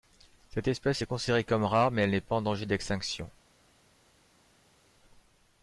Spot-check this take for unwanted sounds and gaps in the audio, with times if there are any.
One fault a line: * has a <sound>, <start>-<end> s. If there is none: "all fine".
all fine